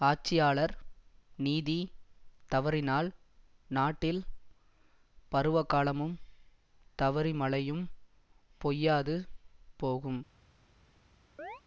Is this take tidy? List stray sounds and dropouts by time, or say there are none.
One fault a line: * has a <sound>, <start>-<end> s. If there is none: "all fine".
* has a chirp, 11.4-11.6 s